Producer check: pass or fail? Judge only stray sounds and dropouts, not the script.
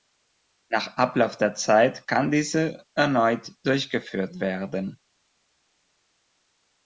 pass